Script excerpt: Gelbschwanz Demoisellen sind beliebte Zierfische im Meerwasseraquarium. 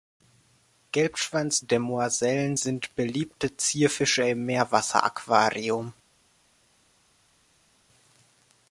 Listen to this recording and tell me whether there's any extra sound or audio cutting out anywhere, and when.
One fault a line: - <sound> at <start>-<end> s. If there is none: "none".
none